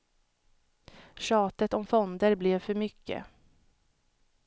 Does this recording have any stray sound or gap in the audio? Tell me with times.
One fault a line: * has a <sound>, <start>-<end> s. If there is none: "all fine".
all fine